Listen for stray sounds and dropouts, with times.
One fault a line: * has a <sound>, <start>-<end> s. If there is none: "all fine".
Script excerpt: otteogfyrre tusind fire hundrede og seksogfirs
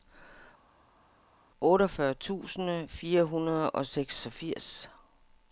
all fine